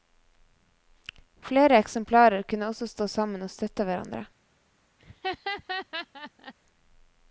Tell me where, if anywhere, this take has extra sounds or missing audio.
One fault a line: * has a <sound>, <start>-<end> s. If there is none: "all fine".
* has a laugh, 5.0-6.5 s